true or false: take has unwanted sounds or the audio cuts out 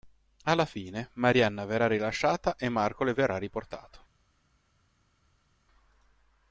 false